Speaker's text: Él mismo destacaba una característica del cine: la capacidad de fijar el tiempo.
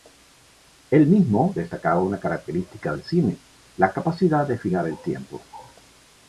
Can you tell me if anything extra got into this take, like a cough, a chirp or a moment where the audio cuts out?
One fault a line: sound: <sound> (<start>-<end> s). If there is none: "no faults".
no faults